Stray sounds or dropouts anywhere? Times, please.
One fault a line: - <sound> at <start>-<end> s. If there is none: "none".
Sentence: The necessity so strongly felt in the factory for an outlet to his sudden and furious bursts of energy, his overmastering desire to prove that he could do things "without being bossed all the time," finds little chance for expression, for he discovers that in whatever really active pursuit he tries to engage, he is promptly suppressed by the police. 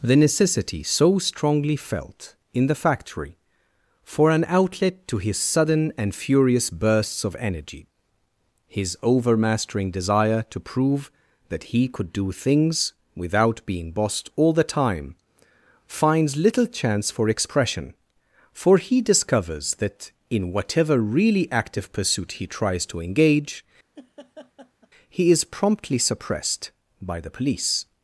- laugh at 24.0-24.9 s